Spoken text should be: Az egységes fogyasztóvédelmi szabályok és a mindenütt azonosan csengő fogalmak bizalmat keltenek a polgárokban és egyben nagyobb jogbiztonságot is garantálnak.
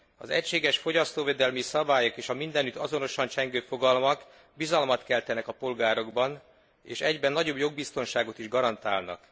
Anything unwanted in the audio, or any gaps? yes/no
no